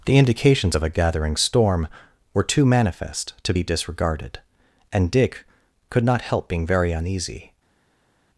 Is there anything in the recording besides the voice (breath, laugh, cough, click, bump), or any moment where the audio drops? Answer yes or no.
no